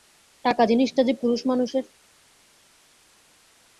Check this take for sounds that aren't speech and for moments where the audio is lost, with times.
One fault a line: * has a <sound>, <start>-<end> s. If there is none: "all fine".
all fine